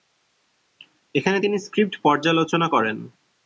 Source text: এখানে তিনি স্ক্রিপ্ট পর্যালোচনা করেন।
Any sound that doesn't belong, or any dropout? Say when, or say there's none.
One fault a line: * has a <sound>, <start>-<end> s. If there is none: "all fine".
all fine